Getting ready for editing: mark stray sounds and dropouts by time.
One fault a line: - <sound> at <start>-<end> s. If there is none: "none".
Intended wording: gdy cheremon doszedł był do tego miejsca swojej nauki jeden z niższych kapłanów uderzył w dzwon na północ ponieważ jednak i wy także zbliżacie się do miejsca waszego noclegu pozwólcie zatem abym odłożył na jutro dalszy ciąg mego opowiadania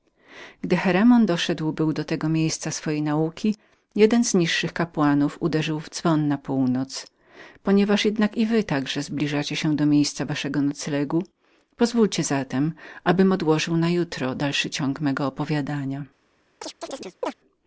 - chirp at 16.6-17.3 s